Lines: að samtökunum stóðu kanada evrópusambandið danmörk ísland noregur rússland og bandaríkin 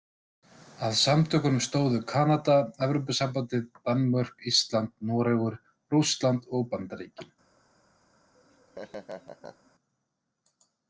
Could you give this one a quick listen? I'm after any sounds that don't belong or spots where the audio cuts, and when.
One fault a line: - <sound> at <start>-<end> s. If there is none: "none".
- laugh at 8.3-9.7 s